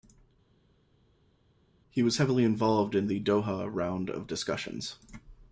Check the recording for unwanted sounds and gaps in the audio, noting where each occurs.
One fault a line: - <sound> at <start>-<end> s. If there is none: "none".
none